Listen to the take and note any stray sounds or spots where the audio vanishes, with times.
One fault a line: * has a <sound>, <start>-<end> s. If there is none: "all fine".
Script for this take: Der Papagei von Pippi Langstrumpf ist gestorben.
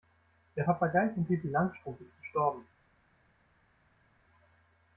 all fine